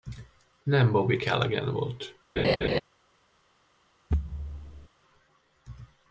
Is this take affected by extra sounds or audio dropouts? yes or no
yes